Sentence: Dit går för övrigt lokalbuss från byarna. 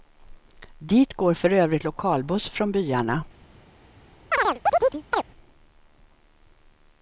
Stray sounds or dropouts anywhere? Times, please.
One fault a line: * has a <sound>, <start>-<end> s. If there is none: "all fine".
* has a chirp, 4.3-5.2 s